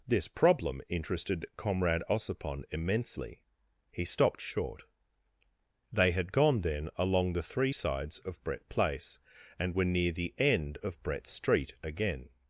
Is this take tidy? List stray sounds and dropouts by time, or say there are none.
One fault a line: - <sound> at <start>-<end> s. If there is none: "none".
none